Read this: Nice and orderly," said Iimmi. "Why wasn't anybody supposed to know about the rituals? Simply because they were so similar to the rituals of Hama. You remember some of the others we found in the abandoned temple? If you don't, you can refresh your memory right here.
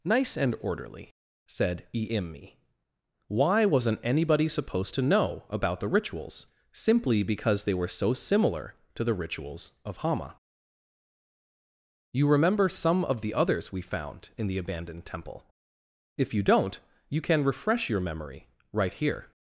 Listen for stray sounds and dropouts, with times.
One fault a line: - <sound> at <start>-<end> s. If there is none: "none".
none